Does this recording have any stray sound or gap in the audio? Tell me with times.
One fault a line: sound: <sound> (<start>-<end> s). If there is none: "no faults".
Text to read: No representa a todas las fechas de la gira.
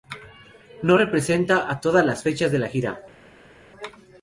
no faults